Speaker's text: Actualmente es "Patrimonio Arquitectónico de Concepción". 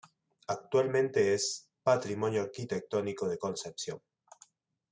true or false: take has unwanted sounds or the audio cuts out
false